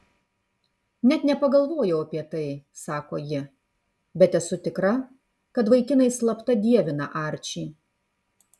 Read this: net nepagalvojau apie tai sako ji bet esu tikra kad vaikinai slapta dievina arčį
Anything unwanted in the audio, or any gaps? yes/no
no